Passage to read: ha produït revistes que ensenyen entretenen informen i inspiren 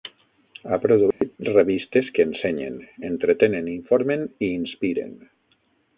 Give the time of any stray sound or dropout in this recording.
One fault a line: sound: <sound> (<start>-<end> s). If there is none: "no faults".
sound: dropout (1.1-1.2 s)